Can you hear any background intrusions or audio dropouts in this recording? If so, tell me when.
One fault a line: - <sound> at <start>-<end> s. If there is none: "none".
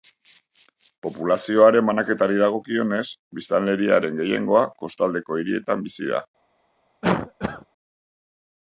- cough at 7.0-7.7 s